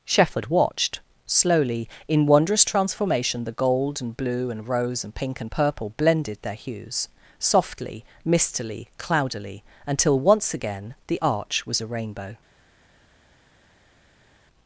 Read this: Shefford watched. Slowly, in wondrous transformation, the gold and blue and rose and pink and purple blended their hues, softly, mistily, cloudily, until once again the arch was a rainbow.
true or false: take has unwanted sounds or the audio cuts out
false